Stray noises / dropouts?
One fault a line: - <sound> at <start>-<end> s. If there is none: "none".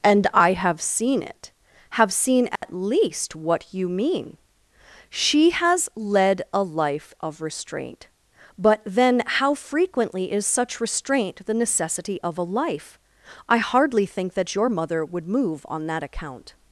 - dropout at 2.6-2.6 s